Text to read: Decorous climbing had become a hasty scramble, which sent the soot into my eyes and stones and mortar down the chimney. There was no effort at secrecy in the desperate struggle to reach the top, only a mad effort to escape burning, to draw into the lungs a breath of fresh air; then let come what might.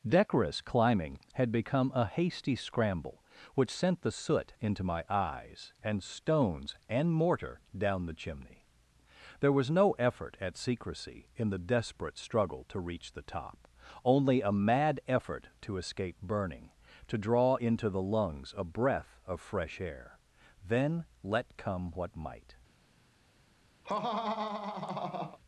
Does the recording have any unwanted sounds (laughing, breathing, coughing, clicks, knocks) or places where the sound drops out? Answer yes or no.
yes